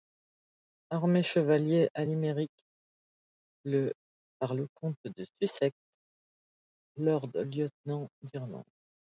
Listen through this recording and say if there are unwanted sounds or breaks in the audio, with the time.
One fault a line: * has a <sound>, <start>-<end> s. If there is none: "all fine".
all fine